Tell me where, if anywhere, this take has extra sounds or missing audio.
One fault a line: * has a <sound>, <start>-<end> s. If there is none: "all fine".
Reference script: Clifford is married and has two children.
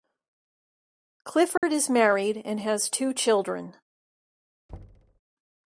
* has a dropout, 1.6-1.6 s
* has a thud, 4.7-5.2 s